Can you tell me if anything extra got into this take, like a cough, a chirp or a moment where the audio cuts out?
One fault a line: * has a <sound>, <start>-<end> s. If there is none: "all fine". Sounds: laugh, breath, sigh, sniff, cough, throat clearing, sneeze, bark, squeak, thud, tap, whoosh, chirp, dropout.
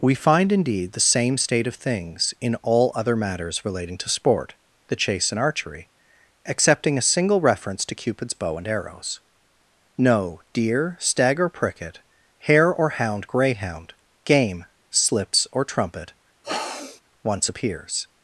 * has a sniff, 16.4-17.0 s